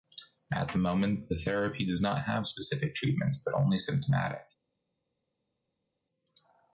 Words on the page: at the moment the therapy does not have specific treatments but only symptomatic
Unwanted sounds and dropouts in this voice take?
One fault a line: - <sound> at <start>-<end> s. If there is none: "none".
none